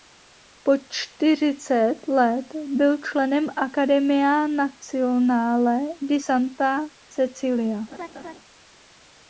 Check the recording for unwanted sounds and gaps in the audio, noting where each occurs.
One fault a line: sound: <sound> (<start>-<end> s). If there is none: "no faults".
sound: laugh (7.9-8.3 s)